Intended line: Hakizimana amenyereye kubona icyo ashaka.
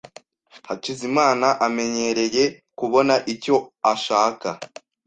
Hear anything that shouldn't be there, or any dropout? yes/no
no